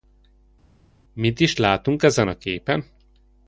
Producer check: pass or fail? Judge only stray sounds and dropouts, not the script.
pass